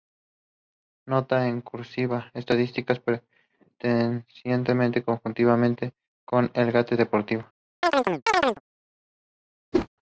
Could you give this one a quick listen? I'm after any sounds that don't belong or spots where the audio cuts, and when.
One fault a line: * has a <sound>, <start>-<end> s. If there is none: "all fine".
* has a chirp, 7.8-8.6 s
* has a whoosh, 9.7-9.9 s